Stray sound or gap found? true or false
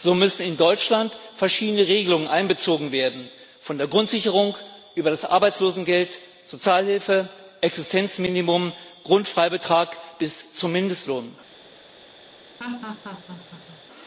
true